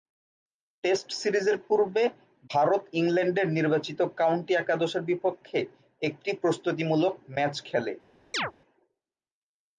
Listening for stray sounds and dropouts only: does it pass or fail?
fail